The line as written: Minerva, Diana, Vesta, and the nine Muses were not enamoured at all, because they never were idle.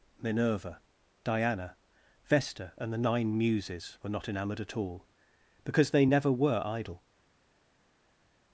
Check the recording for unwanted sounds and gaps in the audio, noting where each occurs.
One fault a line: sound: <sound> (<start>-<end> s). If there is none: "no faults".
no faults